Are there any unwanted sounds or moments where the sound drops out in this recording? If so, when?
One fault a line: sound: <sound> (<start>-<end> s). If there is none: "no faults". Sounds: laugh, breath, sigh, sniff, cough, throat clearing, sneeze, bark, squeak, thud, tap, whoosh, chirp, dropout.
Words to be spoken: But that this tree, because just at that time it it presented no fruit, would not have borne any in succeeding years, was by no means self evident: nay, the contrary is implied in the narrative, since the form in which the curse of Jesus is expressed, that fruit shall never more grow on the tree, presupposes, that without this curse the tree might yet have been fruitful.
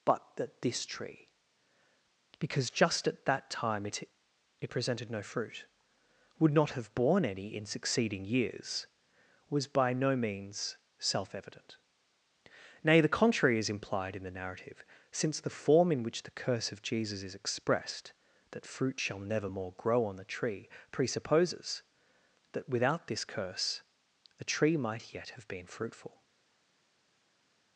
no faults